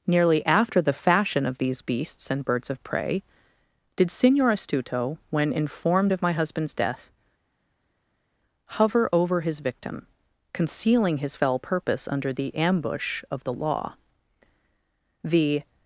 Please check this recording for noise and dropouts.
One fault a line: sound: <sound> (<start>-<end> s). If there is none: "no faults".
no faults